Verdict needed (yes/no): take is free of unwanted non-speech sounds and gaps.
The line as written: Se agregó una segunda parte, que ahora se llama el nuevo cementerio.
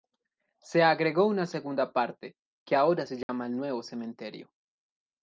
no